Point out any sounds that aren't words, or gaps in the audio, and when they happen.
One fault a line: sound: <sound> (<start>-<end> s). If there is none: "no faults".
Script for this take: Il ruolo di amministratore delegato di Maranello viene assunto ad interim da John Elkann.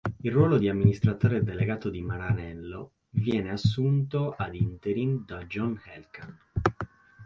no faults